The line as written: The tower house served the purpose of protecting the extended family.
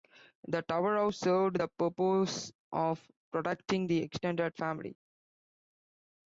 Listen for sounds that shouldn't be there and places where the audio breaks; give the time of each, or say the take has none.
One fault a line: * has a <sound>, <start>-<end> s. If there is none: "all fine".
all fine